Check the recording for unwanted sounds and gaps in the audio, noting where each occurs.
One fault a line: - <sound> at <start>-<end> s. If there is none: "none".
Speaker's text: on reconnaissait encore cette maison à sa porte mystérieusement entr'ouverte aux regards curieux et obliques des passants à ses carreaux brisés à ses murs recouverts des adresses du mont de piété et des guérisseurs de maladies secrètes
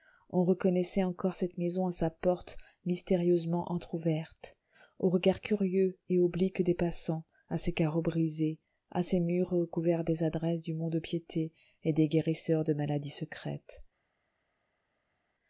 none